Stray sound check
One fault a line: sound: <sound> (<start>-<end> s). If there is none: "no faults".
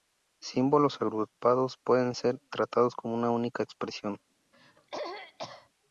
sound: throat clearing (4.5-5.7 s)